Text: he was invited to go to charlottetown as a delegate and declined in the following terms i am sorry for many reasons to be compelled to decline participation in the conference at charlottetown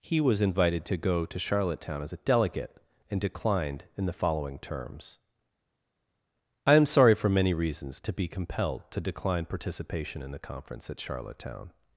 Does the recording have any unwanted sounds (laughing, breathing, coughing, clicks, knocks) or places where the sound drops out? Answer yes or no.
no